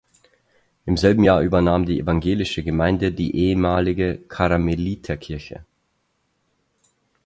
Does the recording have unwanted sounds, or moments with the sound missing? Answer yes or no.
no